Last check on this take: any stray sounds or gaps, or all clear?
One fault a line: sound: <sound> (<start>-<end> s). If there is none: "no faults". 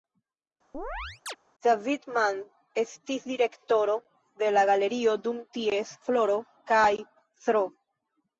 sound: chirp (0.7-1.4 s)